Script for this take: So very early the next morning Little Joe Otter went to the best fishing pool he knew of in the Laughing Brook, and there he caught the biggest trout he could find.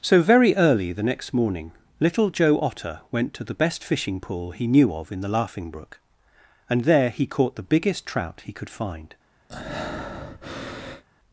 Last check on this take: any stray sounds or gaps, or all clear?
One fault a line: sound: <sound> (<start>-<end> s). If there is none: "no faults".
sound: breath (9.5-11.0 s)